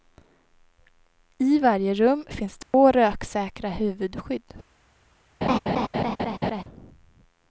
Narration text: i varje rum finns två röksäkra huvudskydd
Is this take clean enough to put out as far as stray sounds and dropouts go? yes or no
no